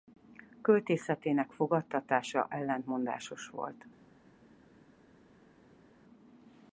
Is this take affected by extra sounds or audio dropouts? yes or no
no